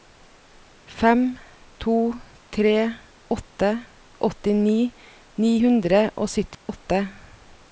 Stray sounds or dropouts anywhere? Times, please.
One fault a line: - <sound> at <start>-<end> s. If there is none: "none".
- dropout at 6.5-6.7 s